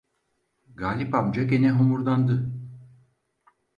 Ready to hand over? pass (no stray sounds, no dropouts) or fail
pass